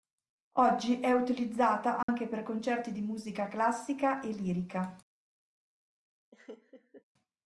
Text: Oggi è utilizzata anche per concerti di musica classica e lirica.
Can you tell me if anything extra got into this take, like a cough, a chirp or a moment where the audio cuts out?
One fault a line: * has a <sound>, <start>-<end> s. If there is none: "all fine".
* has a dropout, 2.0-2.1 s
* has a laugh, 6.3-7.0 s